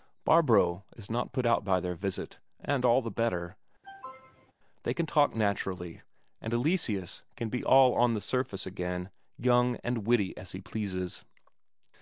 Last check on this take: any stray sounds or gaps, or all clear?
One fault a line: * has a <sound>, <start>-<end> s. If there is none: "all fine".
* has a cough, 3.8-4.5 s